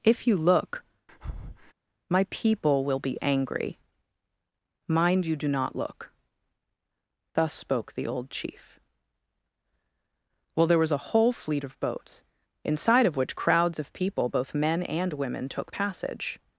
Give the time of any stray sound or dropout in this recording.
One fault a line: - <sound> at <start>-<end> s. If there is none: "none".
- breath at 1.1-1.7 s